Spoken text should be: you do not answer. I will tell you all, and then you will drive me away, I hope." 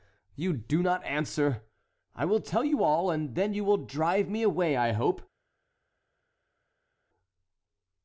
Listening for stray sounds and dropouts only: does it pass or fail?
pass